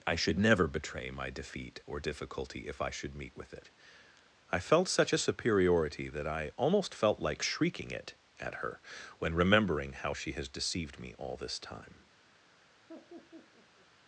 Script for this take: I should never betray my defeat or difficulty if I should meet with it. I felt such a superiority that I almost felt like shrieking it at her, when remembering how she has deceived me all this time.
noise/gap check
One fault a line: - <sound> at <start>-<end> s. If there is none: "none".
- laugh at 12.9-13.9 s